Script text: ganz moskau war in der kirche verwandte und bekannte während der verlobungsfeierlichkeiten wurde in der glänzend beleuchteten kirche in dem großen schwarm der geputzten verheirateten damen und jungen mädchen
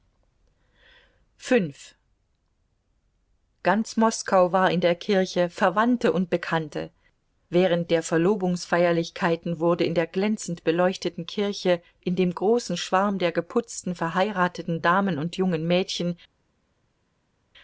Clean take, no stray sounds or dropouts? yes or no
yes